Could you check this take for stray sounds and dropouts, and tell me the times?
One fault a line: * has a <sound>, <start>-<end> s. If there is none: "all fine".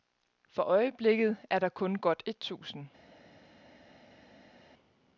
all fine